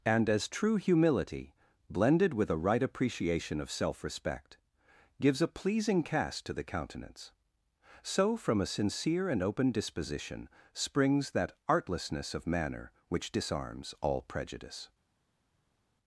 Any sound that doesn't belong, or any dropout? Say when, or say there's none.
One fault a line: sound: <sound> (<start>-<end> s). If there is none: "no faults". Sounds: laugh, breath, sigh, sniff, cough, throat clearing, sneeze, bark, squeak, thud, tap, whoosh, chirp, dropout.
no faults